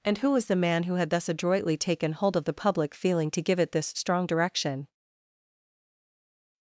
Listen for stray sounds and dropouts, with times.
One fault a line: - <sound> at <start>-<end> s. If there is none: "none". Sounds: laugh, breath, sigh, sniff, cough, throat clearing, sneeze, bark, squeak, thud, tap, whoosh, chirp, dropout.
none